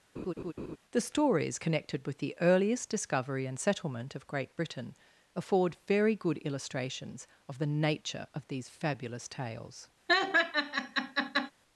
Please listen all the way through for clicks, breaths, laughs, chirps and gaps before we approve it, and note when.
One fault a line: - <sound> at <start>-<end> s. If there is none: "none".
- laugh at 0.2-0.8 s
- laugh at 10.1-11.5 s